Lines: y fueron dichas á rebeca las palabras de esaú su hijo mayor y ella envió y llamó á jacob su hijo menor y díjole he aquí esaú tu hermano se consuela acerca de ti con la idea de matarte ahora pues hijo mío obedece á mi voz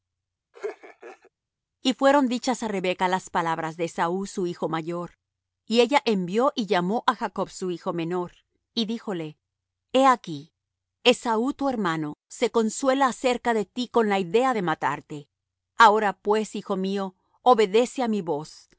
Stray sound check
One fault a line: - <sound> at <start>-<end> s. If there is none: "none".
- laugh at 0.5-1.3 s